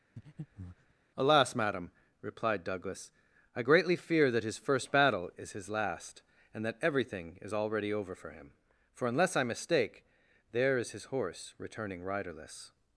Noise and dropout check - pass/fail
fail